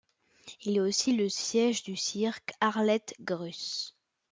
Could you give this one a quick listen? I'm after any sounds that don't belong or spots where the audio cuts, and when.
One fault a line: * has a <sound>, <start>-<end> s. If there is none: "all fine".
all fine